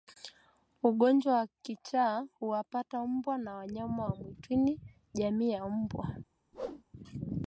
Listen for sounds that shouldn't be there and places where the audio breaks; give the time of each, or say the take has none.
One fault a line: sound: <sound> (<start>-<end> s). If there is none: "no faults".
sound: whoosh (6.5-6.8 s)